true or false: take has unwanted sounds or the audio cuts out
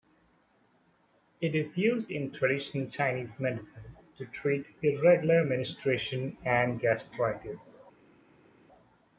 false